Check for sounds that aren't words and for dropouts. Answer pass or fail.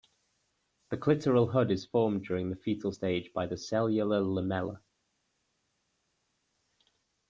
pass